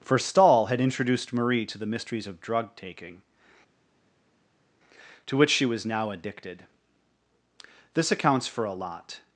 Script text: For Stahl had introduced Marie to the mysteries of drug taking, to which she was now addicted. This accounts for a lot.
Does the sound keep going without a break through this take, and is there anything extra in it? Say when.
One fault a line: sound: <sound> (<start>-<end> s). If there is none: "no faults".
no faults